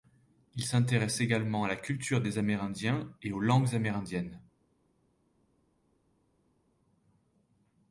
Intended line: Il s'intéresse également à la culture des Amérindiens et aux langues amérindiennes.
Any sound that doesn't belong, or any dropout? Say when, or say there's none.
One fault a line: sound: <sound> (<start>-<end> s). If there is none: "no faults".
no faults